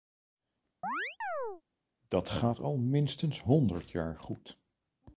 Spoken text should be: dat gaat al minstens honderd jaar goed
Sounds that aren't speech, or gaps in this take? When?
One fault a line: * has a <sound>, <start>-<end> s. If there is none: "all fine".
* has a chirp, 0.8-1.6 s